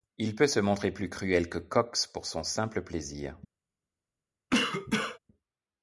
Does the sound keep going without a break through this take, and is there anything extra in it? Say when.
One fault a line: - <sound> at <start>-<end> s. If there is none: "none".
- cough at 4.5-5.2 s